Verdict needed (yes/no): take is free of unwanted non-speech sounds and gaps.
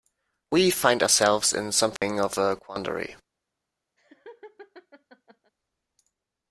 no